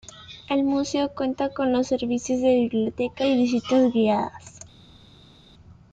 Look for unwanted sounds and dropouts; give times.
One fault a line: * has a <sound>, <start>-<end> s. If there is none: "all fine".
all fine